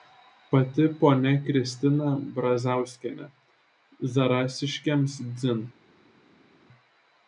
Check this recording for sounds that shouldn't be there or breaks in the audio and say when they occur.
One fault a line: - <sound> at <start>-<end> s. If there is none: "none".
none